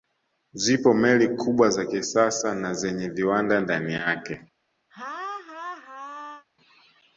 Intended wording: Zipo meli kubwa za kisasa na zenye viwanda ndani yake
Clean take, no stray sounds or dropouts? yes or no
no